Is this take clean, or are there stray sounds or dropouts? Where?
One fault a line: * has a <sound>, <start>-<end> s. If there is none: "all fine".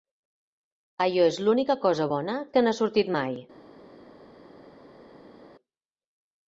all fine